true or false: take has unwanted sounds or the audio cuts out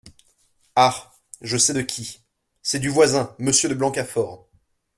false